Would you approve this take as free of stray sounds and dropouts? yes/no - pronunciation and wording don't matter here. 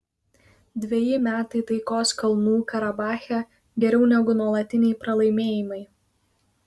yes